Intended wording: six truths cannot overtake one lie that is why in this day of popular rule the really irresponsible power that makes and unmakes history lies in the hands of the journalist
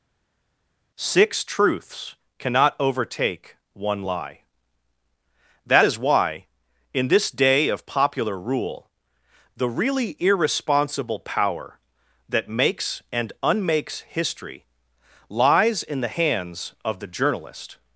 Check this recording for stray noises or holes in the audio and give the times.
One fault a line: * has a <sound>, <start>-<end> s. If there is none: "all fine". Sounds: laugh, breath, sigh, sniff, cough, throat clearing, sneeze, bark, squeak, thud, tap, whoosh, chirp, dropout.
all fine